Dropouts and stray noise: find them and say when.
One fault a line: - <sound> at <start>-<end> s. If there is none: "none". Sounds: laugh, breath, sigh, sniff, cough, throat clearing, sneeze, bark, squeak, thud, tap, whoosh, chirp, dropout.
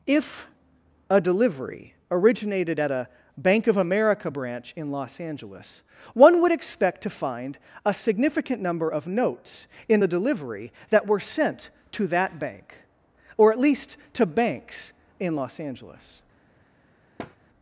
- thud at 17.2-17.4 s